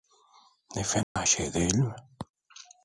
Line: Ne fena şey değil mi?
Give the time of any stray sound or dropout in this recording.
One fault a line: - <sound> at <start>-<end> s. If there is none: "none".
- dropout at 1.0-1.2 s